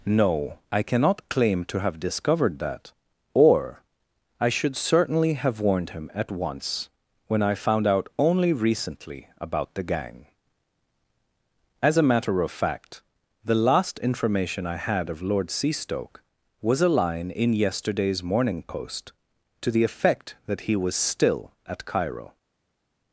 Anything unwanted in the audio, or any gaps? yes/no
no